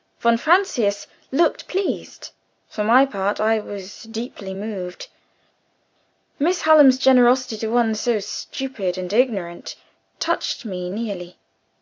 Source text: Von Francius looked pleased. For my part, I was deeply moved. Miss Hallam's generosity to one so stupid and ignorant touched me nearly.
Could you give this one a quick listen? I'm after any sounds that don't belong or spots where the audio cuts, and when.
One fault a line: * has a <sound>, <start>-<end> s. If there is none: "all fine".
all fine